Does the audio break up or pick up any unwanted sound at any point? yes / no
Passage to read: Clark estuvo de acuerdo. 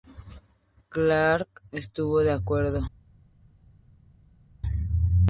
no